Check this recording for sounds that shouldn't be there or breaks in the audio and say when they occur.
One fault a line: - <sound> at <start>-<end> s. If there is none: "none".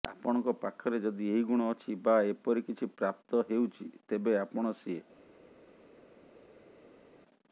none